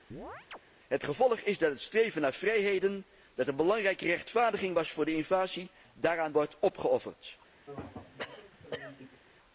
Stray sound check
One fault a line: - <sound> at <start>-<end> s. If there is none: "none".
- chirp at 0.1-0.6 s
- throat clearing at 7.7-9.2 s